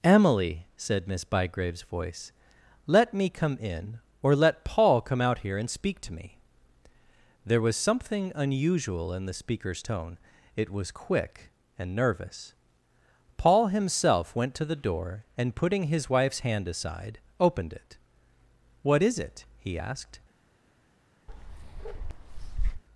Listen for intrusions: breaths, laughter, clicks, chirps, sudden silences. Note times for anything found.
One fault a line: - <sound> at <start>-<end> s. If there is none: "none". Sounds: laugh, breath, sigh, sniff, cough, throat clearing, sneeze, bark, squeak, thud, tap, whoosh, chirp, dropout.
- bark at 21.3-22.8 s